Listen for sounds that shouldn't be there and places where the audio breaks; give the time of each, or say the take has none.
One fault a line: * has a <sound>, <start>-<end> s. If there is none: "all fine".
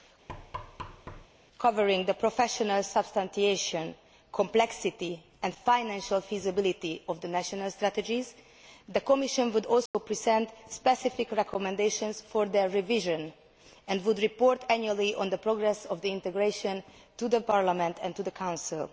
* has a thud, 0.3-1.3 s
* has a dropout, 9.9-9.9 s